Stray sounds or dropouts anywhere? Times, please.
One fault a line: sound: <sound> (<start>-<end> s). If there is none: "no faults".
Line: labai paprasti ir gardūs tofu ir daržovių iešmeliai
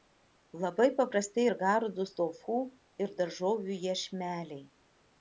no faults